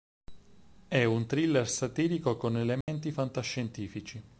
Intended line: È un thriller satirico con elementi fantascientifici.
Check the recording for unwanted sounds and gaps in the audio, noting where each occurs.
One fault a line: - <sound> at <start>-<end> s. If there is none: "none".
- dropout at 2.8-2.9 s